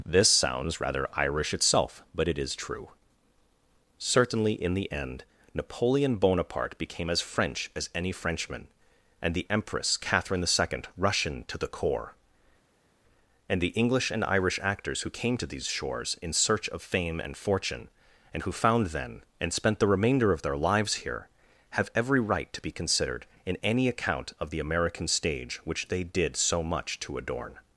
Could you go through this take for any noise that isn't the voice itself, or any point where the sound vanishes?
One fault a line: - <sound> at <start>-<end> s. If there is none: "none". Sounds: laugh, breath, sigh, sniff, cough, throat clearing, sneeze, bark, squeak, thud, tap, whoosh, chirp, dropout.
none